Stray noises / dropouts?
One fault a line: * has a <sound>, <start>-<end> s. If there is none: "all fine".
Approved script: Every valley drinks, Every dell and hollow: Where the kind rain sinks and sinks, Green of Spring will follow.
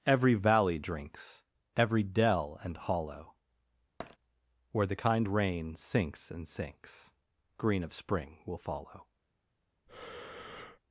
* has a tap, 4.0-4.2 s
* has a breath, 9.9-10.8 s